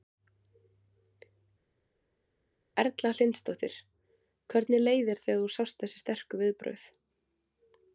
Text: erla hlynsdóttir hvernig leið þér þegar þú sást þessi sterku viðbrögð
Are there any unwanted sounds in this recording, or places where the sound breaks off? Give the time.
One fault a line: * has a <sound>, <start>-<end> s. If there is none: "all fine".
all fine